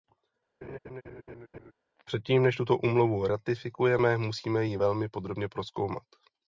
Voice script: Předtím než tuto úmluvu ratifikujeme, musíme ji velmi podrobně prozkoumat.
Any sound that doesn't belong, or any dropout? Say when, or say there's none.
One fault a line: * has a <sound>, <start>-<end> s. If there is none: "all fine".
* has a laugh, 0.6-1.7 s